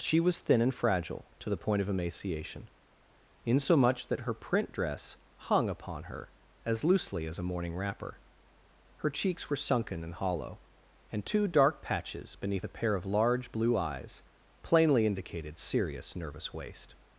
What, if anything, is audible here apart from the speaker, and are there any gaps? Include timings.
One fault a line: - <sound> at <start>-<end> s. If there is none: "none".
none